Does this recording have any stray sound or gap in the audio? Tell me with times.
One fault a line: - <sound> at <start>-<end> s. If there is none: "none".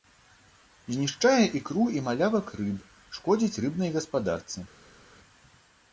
none